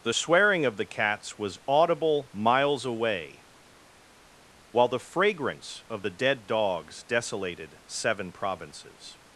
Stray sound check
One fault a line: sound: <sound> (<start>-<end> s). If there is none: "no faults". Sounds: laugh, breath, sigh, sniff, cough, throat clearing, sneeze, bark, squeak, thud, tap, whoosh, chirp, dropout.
no faults